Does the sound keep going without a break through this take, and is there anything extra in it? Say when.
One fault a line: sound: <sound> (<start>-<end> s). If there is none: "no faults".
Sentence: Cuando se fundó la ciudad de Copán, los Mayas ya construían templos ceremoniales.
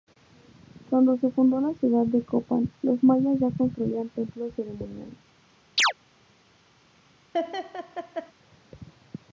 sound: chirp (5.8-5.9 s)
sound: laugh (7.3-8.3 s)